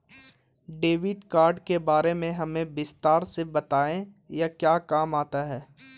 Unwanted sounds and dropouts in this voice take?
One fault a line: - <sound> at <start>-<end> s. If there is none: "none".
none